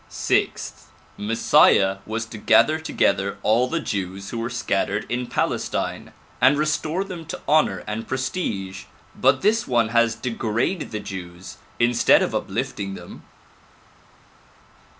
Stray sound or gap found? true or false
false